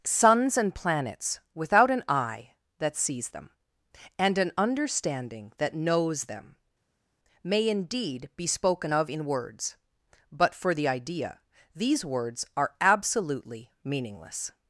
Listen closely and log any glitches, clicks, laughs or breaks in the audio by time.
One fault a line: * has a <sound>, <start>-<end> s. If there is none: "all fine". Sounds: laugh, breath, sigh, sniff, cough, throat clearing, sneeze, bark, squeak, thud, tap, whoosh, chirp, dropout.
all fine